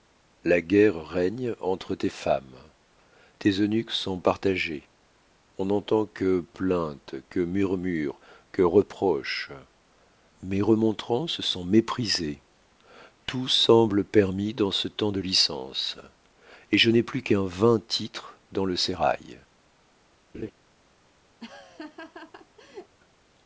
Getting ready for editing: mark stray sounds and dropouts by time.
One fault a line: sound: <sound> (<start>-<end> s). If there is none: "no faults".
sound: laugh (20.3-20.5 s)
sound: laugh (21.4-23.0 s)